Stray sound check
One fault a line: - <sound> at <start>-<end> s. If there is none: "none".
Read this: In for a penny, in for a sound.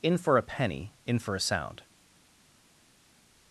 none